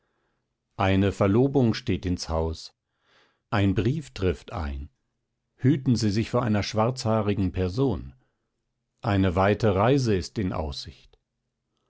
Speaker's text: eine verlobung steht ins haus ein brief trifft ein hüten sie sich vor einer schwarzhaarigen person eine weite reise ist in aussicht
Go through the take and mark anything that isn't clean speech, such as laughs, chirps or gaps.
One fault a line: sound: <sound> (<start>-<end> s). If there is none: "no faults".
no faults